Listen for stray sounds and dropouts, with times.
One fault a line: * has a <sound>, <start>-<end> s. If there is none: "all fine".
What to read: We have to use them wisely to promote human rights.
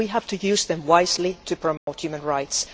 * has a dropout, 1.8-1.9 s